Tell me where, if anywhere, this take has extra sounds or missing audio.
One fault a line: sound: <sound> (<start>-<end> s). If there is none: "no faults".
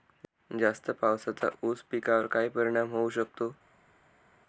no faults